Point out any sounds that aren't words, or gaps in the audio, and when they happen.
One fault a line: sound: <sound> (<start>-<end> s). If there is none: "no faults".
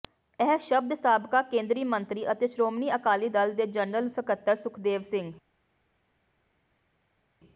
no faults